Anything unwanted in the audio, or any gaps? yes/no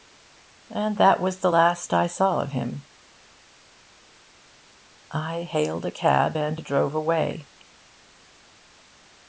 no